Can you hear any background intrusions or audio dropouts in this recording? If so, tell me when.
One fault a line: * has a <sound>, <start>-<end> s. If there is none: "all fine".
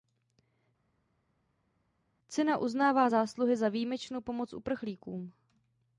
all fine